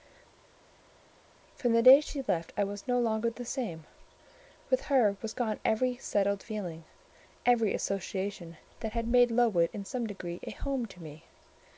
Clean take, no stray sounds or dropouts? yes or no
yes